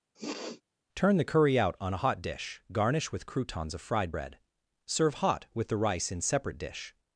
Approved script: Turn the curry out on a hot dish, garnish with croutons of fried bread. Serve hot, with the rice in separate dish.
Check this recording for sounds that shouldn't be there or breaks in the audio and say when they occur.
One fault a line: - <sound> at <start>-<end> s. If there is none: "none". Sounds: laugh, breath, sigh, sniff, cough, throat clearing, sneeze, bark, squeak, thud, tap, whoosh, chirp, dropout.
- sniff at 0.1-0.6 s